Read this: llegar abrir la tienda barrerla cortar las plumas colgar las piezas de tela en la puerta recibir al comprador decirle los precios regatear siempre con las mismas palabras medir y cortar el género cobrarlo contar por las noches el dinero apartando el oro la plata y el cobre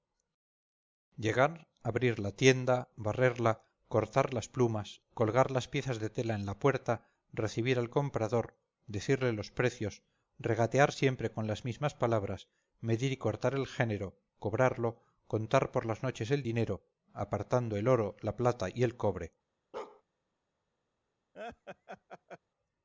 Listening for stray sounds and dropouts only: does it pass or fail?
fail